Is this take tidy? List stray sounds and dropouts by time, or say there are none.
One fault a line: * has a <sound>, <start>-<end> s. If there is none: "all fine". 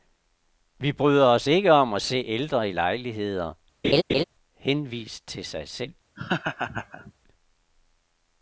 * has a laugh, 3.8-4.2 s
* has a laugh, 6.2-7.1 s